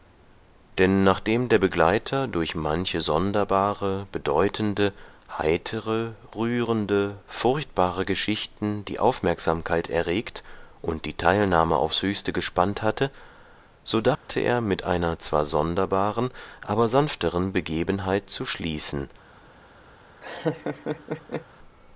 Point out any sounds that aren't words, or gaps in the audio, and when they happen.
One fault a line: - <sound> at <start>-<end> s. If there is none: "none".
- dropout at 14.2-14.3 s
- laugh at 20.2-21.5 s